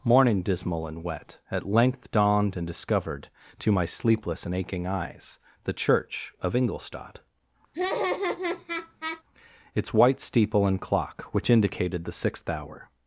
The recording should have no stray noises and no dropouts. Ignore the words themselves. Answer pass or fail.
fail